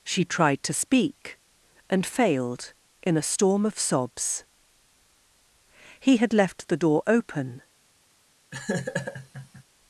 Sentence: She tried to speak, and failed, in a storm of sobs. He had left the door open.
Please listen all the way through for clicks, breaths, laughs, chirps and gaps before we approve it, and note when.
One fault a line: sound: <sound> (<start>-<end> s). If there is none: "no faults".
sound: laugh (8.5-9.6 s)